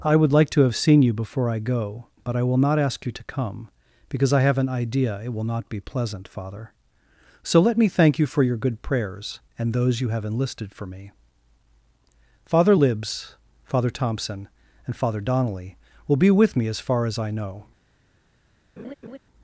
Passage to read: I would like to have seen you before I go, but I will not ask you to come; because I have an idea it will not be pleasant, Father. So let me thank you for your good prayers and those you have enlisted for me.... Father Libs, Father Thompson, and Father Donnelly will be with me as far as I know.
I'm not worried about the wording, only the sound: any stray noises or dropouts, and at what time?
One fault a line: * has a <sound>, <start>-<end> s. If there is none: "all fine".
* has a laugh, 18.8-19.2 s